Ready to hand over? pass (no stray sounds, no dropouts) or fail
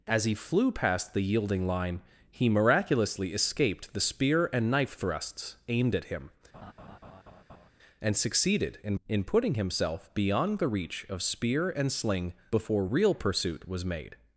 fail